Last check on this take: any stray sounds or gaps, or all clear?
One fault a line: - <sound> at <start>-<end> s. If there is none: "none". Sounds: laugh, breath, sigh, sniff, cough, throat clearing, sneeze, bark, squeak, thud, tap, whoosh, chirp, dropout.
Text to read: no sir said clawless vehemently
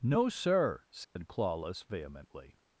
- dropout at 1.0-1.2 s